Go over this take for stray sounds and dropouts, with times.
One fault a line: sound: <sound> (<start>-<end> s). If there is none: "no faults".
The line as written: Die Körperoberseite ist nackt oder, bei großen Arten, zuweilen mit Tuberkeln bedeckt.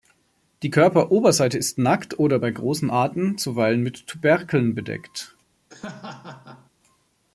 sound: laugh (5.7-6.7 s)